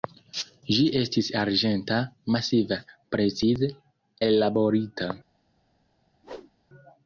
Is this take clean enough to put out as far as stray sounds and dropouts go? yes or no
no